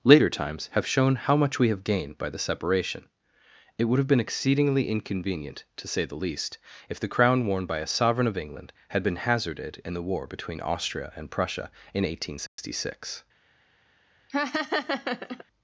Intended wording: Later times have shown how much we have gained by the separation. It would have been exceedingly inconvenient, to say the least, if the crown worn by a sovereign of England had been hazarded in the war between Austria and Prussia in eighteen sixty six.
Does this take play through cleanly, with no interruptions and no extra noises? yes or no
no